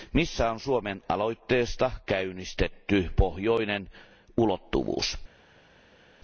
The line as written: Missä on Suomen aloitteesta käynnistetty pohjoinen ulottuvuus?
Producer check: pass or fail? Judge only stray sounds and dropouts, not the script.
pass